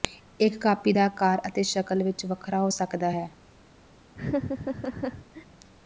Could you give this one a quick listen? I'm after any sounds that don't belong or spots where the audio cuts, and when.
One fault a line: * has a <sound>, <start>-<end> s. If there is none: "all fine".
* has a laugh, 4.1-5.5 s